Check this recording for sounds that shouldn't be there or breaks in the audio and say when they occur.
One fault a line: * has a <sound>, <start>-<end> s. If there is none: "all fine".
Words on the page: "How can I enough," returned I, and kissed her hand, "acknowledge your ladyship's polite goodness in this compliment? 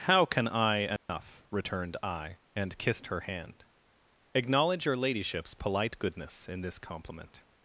* has a dropout, 1.0-1.1 s